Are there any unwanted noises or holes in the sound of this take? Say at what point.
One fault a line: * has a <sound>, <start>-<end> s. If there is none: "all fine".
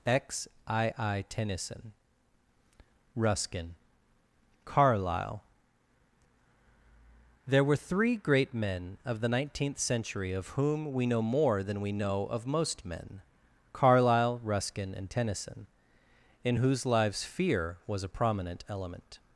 all fine